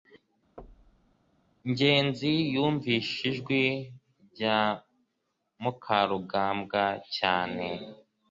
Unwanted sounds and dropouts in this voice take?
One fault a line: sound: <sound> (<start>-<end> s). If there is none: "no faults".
sound: thud (0.6-1.2 s)